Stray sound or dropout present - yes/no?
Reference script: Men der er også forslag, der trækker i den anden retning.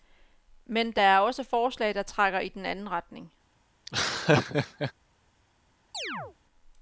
yes